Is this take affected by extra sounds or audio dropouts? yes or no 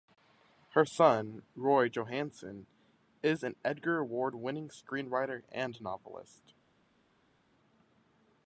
no